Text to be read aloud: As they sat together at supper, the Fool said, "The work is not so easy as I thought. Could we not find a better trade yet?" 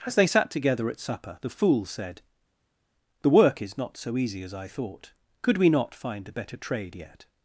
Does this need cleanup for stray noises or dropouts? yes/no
no